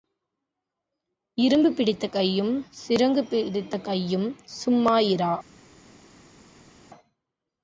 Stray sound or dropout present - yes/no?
no